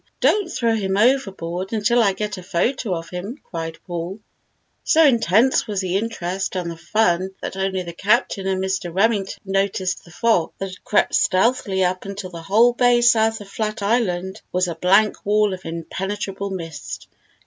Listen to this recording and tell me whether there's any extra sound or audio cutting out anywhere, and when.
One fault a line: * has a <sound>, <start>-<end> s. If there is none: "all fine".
all fine